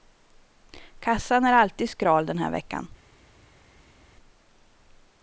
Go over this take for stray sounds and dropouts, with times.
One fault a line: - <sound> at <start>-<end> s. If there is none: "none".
none